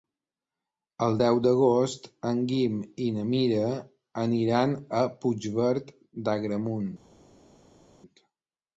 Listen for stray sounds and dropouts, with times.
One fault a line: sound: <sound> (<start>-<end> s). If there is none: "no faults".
no faults